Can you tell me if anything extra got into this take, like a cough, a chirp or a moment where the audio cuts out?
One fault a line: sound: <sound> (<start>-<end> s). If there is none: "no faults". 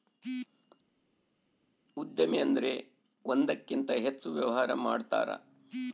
no faults